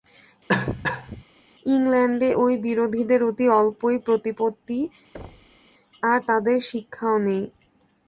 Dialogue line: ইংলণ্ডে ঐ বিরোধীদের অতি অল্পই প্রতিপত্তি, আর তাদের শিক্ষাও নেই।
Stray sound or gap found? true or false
true